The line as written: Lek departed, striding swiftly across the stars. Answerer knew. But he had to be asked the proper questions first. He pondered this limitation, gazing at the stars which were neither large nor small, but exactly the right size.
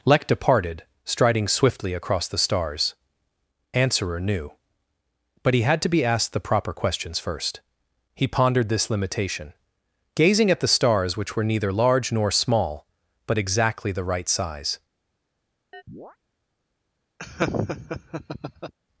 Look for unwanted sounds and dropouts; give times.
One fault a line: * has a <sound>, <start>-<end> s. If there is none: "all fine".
* has a chirp, 15.7-16.2 s
* has a laugh, 17.2-18.7 s